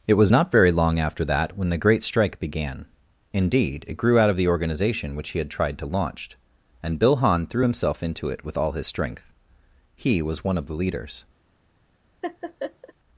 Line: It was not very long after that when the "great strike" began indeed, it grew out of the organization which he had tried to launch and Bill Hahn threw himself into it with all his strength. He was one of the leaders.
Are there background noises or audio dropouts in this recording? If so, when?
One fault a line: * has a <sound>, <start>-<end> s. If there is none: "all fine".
* has a laugh, 12.2-12.9 s